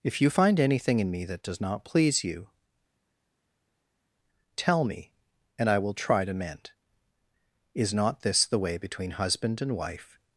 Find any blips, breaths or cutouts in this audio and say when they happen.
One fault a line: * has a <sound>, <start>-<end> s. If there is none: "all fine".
all fine